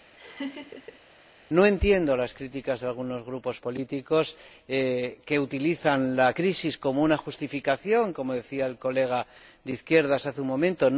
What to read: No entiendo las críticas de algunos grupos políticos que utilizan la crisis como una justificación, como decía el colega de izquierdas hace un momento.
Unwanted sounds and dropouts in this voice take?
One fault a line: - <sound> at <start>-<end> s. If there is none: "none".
- laugh at 0.2-1.0 s